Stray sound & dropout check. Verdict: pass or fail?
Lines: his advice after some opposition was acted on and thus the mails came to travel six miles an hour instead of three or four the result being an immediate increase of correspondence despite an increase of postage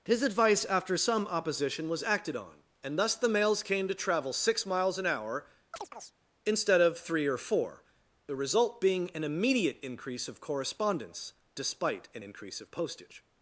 fail